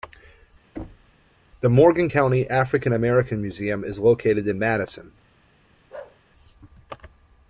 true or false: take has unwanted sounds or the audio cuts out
true